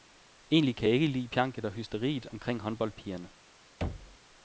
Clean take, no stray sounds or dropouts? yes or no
no